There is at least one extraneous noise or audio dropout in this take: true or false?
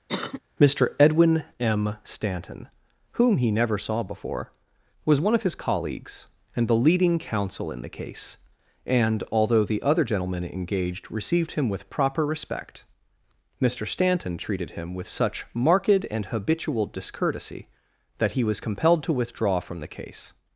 true